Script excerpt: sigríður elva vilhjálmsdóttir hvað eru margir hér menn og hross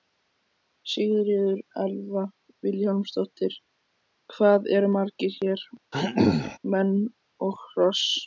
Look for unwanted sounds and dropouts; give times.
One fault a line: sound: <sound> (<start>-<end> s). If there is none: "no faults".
sound: throat clearing (5.9-6.6 s)